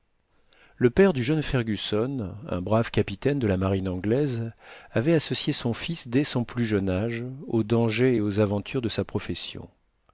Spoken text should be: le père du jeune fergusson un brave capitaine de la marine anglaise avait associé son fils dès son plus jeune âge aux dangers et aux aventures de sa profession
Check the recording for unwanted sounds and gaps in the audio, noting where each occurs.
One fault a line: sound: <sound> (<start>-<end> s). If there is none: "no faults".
no faults